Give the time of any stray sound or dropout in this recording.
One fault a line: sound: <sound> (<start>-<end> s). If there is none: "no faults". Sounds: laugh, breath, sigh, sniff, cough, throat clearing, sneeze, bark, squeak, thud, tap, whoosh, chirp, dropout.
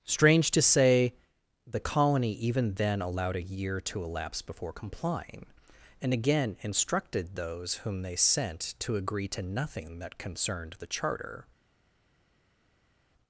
no faults